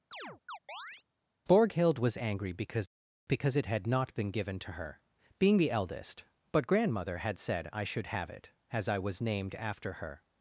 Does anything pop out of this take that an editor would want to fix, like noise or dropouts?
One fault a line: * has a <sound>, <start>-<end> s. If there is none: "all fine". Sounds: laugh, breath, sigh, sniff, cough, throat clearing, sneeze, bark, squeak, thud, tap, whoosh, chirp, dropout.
* has a chirp, 0.1-1.0 s